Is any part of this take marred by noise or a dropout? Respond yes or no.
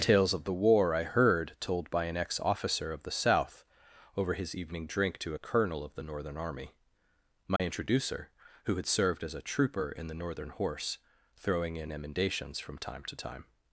yes